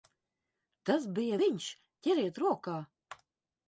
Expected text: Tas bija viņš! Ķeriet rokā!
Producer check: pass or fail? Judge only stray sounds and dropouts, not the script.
pass